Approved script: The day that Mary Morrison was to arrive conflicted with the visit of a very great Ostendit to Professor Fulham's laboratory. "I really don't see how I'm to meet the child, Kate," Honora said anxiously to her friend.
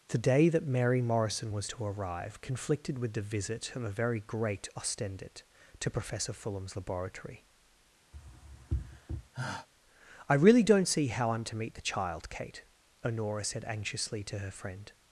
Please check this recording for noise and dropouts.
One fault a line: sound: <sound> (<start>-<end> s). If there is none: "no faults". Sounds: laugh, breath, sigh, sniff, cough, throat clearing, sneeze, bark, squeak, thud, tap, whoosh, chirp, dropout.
sound: sigh (8.1-9.7 s)